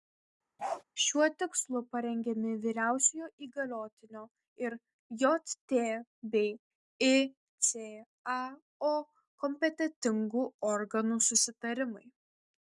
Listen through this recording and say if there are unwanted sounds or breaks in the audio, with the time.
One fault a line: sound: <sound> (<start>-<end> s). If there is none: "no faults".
sound: bark (0.6-0.8 s)